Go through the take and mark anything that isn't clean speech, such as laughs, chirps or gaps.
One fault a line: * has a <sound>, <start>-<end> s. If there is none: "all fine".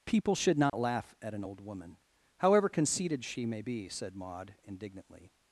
* has a dropout, 0.7-0.7 s